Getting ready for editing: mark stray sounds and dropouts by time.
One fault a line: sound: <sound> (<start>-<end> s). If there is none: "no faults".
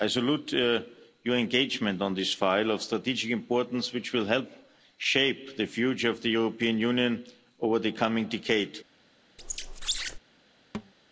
sound: squeak (9.4-10.2 s)
sound: thud (10.7-10.9 s)